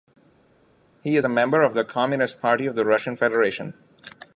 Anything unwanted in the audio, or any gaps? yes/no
no